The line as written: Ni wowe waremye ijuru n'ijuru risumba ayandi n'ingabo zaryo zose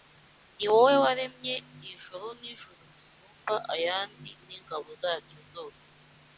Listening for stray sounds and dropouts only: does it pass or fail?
pass